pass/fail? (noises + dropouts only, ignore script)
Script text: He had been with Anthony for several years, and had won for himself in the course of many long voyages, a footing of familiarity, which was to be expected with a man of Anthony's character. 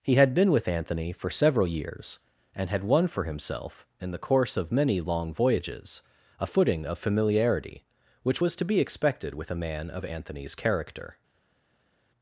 pass